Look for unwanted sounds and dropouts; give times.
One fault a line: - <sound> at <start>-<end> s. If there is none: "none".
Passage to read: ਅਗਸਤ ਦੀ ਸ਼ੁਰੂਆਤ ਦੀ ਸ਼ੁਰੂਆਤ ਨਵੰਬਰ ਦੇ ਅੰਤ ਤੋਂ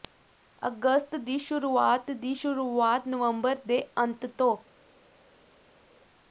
none